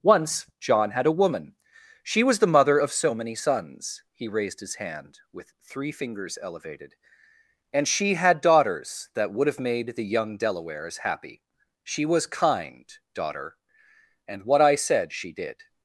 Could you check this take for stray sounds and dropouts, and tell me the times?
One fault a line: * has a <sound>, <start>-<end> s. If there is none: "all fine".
all fine